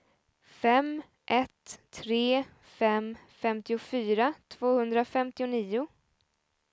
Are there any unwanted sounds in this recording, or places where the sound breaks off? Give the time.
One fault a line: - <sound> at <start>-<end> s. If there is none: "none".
none